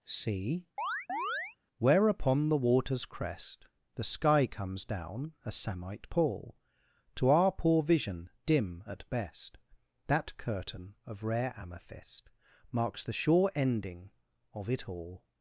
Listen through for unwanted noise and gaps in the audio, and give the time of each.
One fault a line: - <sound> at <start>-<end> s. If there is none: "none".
- chirp at 0.8-1.6 s